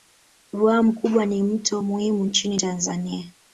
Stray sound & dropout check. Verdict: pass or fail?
pass